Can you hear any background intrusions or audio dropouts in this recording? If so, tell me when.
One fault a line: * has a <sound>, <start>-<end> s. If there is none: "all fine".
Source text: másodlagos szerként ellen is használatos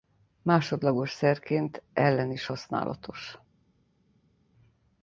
all fine